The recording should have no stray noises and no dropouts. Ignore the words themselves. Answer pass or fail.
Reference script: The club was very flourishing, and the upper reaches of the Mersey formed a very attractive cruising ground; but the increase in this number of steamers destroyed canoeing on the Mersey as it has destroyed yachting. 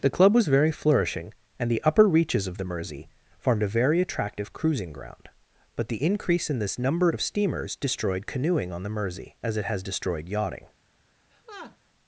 fail